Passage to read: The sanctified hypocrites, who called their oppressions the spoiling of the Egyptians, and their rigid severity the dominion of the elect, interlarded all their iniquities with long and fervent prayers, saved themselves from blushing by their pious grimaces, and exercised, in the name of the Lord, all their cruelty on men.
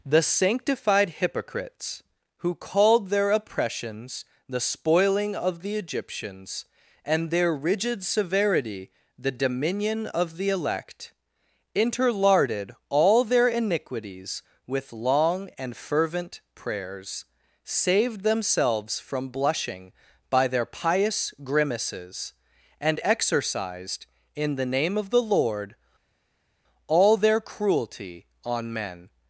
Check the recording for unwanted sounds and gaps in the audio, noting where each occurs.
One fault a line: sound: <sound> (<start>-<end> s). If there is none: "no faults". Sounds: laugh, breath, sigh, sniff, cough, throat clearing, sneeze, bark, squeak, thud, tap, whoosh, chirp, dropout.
no faults